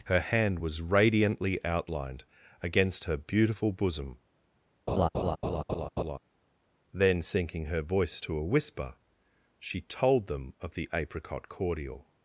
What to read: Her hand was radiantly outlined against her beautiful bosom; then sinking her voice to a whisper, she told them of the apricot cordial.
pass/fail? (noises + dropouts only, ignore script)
fail